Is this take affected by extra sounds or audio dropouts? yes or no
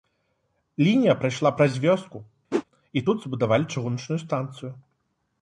yes